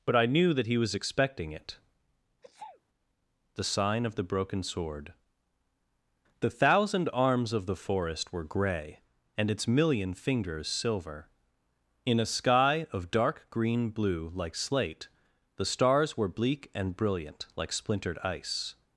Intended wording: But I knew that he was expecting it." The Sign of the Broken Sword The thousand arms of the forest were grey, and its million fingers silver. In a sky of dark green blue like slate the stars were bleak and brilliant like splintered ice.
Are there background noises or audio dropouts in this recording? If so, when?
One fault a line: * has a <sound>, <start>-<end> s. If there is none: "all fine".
* has a sneeze, 2.4-2.8 s